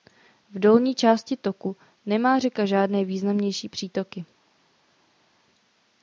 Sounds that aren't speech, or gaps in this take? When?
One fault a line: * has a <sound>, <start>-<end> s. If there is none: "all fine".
all fine